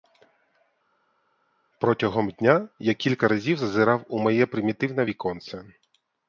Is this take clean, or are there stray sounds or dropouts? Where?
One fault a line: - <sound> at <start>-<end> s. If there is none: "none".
none